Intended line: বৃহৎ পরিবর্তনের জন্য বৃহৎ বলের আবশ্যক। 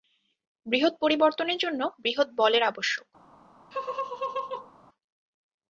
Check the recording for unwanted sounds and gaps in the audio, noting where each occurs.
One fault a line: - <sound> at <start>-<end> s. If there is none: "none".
- laugh at 3.7-4.7 s